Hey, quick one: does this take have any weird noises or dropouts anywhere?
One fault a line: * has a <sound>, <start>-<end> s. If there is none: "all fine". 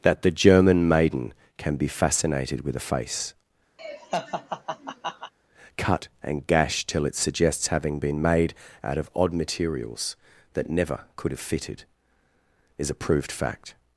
* has a laugh, 3.8-5.3 s